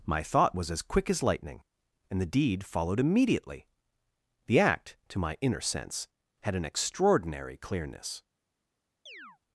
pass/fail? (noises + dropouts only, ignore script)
fail